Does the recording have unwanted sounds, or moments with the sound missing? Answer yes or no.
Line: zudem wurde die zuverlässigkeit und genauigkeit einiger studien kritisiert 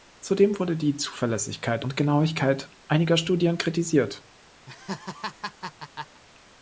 yes